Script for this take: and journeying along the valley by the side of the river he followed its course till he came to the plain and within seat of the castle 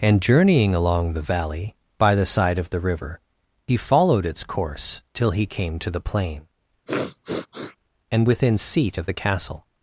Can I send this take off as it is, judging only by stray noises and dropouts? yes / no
no